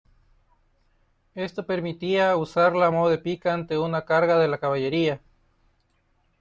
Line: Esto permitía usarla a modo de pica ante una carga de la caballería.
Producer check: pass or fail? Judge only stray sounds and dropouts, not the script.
pass